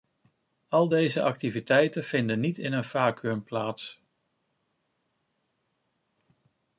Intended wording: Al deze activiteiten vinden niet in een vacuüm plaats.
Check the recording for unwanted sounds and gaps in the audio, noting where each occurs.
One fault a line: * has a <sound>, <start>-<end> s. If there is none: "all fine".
all fine